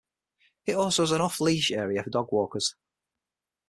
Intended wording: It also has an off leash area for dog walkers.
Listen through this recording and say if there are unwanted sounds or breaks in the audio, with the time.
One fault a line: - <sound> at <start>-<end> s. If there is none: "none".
none